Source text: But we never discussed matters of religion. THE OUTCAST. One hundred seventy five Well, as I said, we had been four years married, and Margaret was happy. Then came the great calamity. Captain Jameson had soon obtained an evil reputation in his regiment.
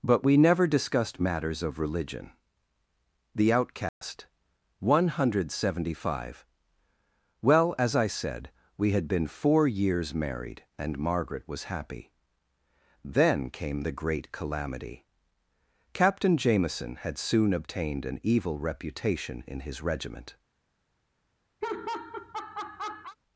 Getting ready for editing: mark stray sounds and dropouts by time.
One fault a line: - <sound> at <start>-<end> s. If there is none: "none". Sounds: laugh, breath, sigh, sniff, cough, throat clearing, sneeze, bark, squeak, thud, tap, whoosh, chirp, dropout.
- dropout at 3.9-4.0 s
- laugh at 21.6-23.2 s